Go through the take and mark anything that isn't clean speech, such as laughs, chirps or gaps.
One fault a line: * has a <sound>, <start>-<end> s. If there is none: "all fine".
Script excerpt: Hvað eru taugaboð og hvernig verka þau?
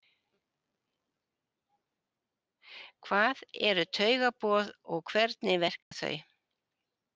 * has a dropout, 5.8-5.9 s